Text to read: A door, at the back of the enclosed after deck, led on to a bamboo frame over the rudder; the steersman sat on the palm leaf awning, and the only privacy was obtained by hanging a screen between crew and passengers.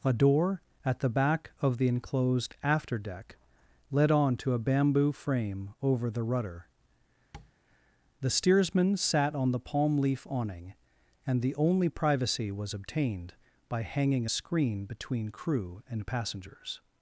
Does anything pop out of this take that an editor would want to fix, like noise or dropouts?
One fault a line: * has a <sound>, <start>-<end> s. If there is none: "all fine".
* has a tap, 7.3-7.5 s